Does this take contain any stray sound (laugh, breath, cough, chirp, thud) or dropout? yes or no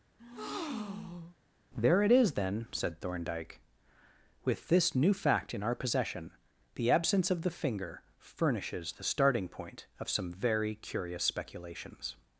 yes